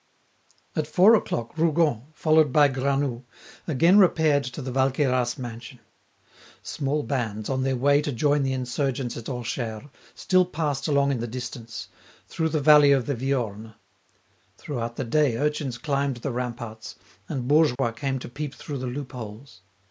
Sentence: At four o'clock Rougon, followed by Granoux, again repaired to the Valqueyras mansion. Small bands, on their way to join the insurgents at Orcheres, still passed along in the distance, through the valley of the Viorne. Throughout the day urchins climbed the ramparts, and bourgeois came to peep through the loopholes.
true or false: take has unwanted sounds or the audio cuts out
true